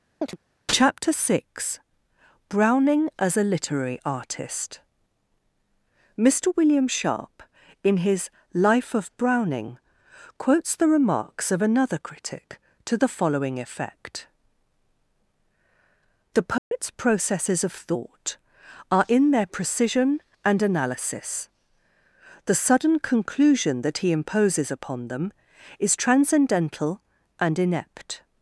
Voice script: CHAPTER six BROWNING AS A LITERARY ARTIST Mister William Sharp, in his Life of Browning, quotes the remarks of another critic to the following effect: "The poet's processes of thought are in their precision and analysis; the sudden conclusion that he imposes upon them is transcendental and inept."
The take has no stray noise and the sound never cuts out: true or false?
false